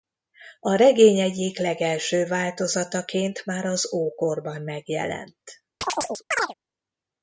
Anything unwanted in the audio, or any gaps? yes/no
yes